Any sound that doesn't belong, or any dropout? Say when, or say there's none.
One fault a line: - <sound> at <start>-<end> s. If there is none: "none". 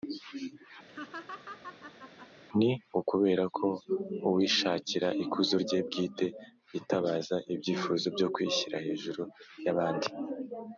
- laugh at 0.9-2.3 s